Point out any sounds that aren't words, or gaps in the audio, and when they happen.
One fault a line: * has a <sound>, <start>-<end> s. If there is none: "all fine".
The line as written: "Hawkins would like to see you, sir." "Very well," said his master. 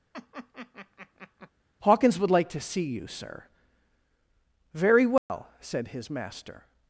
* has a laugh, 0.1-1.5 s
* has a dropout, 5.2-5.3 s